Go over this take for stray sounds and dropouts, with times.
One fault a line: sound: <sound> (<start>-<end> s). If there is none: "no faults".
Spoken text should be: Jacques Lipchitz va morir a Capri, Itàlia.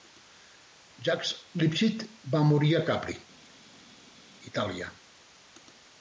no faults